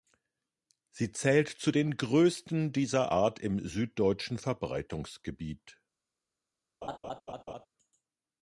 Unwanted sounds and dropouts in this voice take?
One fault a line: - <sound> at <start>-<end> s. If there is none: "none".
- laugh at 6.8-7.7 s